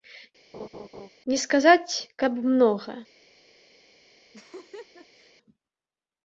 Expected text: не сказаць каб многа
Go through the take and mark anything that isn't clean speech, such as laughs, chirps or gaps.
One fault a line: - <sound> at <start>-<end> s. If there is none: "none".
- laugh at 0.5-1.1 s
- laugh at 4.3-5.3 s